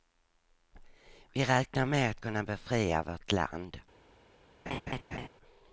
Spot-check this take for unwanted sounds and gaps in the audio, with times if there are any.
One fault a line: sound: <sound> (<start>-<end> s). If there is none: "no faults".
sound: laugh (4.7-5.3 s)